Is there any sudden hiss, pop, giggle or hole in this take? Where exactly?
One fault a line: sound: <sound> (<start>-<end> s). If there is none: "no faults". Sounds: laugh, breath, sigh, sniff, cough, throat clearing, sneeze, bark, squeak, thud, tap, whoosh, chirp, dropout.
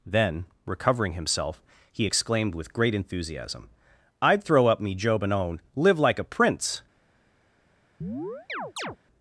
sound: chirp (8.0-9.0 s)